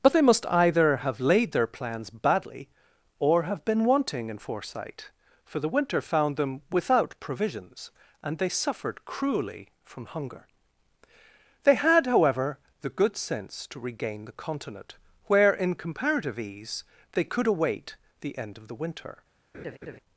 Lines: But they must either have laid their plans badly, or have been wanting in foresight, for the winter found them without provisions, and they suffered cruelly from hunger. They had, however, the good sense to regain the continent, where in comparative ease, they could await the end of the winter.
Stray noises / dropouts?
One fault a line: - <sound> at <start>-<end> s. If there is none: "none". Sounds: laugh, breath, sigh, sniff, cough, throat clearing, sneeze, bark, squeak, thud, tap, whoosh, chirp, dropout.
- laugh at 19.5-20.0 s